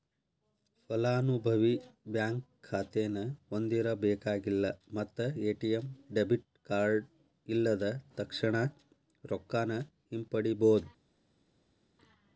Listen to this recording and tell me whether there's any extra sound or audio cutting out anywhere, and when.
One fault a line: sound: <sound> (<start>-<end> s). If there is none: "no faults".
no faults